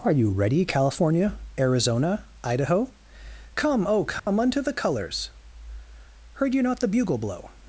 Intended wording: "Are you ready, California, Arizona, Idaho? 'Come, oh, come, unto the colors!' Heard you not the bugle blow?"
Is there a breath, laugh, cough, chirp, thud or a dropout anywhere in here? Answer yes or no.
yes